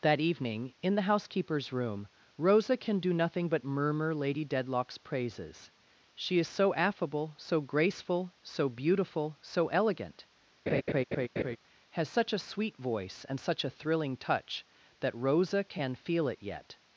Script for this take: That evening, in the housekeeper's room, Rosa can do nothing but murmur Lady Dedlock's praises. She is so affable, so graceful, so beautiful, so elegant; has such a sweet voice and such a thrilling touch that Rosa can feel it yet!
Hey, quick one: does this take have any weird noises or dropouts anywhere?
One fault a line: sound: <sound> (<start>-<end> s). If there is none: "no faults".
sound: laugh (10.7-11.6 s)